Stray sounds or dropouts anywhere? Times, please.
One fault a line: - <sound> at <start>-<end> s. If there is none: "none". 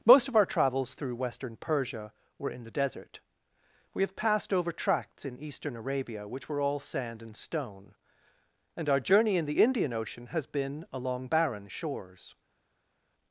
none